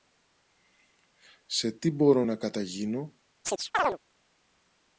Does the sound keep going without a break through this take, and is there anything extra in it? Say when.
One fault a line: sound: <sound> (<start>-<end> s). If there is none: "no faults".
sound: chirp (3.4-4.0 s)